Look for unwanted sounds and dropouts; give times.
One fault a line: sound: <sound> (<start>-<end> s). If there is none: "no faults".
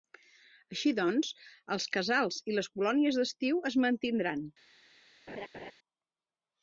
sound: laugh (5.3-5.7 s)